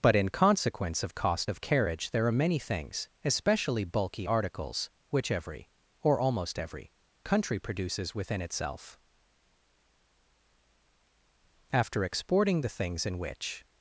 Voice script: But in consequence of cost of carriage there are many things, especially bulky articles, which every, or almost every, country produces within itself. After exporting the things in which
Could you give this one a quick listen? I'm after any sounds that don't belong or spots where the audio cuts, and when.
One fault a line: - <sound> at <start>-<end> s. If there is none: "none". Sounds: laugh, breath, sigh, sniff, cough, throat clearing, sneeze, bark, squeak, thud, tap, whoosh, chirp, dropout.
none